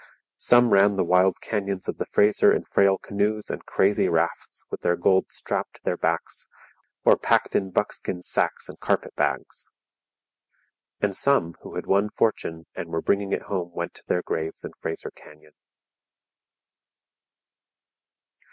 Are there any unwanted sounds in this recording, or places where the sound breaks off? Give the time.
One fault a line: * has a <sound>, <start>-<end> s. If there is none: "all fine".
all fine